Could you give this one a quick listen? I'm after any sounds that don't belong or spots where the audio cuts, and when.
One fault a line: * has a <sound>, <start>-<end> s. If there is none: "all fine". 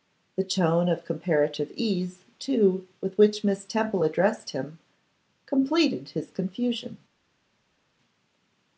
all fine